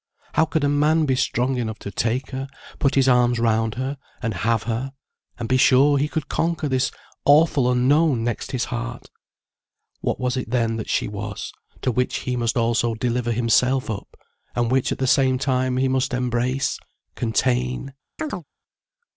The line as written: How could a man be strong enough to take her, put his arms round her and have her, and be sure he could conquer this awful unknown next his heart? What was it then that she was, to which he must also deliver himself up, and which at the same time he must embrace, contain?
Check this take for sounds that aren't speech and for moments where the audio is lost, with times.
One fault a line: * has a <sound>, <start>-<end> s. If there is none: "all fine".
* has a chirp, 18.2-18.4 s